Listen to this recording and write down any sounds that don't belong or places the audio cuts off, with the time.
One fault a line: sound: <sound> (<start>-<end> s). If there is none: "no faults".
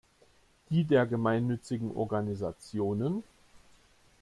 no faults